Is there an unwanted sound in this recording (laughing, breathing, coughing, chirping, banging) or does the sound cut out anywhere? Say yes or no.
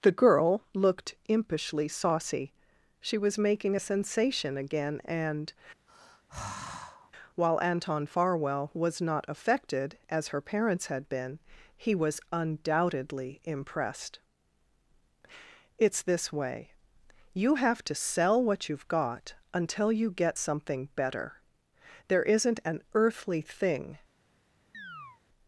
yes